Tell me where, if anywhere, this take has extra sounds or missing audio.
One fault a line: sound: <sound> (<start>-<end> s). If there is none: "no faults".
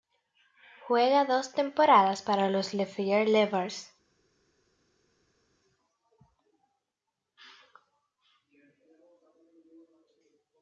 no faults